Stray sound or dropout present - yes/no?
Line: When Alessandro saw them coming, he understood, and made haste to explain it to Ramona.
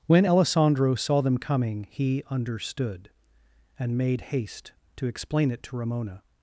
no